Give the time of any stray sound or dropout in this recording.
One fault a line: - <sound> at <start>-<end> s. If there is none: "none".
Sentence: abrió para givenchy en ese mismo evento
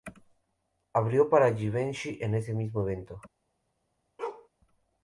- bark at 4.2-4.5 s